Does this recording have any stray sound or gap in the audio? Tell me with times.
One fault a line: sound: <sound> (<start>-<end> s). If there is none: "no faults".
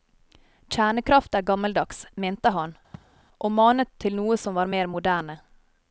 sound: sneeze (2.9-3.2 s)